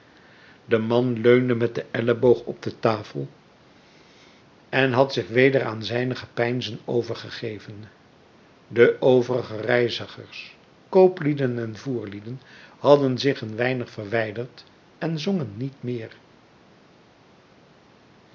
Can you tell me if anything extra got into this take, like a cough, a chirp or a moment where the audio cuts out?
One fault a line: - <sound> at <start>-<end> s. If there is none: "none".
none